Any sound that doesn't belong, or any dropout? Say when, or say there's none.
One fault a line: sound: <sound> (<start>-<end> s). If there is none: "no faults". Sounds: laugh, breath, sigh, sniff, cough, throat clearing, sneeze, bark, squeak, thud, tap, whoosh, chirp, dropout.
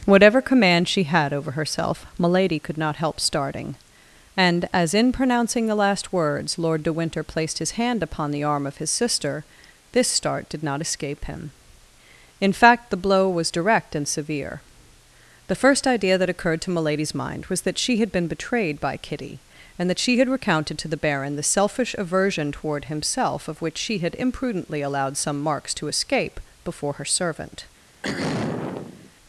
sound: throat clearing (28.0-29.1 s)